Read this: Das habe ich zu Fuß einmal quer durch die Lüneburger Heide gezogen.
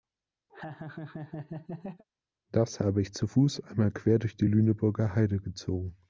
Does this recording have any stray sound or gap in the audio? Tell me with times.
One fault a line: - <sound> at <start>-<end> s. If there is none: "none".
- laugh at 0.5-2.0 s